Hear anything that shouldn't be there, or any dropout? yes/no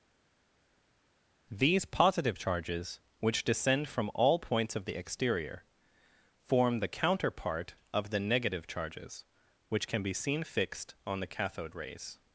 no